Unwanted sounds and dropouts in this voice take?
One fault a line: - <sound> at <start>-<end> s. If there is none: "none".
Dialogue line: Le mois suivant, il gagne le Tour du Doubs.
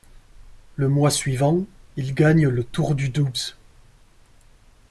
none